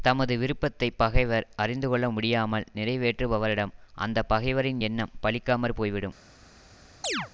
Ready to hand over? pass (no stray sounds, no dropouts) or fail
fail